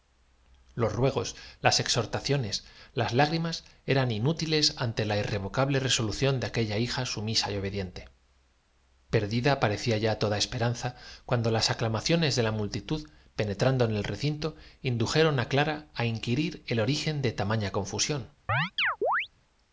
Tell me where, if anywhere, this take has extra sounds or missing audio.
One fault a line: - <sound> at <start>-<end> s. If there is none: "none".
- chirp at 18.5-19.3 s